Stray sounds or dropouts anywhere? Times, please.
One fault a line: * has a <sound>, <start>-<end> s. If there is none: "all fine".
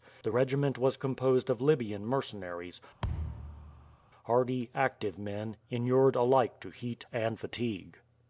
* has a thud, 3.0-4.0 s